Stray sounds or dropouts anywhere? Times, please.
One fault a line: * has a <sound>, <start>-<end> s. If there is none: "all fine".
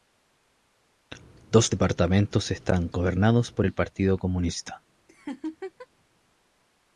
* has a laugh, 5.1-5.9 s